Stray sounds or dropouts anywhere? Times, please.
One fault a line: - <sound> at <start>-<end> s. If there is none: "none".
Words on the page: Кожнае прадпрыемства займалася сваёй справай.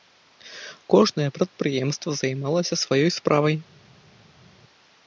none